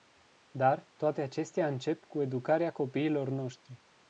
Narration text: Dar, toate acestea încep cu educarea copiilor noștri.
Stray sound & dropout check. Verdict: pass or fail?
pass